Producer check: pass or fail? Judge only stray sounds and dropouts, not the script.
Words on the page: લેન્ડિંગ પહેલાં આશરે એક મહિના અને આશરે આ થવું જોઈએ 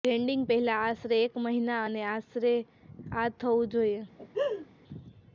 fail